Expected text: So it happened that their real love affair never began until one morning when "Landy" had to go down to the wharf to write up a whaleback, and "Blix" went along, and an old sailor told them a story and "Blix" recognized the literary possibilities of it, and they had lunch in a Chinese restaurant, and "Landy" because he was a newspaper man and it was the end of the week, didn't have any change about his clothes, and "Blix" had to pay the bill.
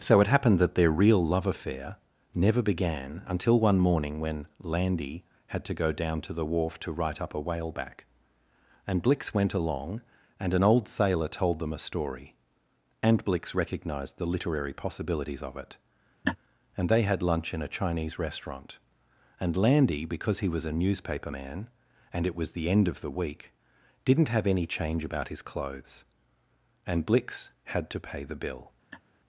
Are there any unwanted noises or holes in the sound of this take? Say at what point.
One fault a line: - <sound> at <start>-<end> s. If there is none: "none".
- laugh at 16.2-16.4 s
- laugh at 28.9-29.0 s